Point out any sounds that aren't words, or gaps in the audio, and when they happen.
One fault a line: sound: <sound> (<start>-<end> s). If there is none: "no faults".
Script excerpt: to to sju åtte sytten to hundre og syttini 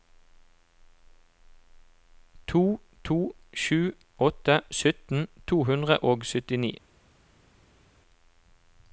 no faults